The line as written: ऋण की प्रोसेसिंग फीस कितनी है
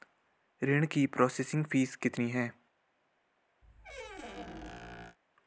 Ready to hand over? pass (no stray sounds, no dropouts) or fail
fail